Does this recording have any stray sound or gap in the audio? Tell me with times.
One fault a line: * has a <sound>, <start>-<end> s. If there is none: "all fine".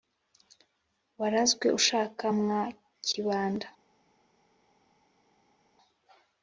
all fine